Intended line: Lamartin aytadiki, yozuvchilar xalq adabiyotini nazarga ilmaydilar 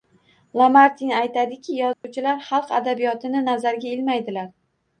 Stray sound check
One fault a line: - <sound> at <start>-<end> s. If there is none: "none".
- dropout at 1.9-2.0 s